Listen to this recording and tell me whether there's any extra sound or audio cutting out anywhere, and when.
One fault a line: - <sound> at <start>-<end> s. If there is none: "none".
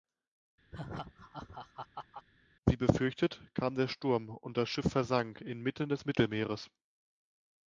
- laugh at 0.7-2.3 s